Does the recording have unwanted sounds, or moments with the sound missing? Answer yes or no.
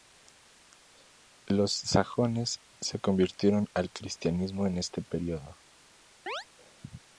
yes